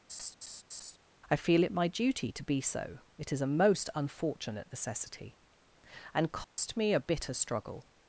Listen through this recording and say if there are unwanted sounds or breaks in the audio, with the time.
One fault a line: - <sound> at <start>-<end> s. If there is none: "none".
- laugh at 0.1-1.0 s
- dropout at 6.4-6.6 s